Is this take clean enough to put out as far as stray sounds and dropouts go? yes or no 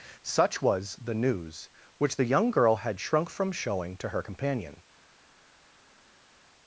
yes